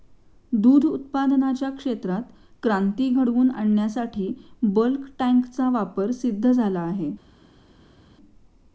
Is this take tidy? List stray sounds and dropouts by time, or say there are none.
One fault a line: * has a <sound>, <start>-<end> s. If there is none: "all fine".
all fine